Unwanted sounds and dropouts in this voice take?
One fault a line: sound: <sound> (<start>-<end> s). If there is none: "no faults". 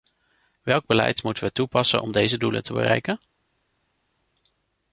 no faults